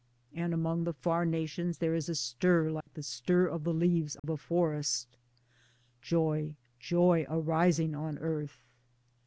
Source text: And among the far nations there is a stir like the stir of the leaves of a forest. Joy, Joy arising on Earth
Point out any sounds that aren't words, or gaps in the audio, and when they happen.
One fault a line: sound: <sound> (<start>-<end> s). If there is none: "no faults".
sound: dropout (2.8-2.9 s)
sound: dropout (4.2-4.2 s)